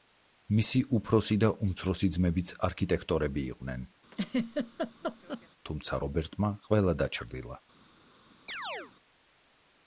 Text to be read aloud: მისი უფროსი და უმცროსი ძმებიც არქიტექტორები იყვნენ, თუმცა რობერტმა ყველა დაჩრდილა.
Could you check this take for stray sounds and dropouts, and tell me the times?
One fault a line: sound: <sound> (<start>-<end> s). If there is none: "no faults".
sound: laugh (4.1-5.5 s)
sound: chirp (8.5-8.9 s)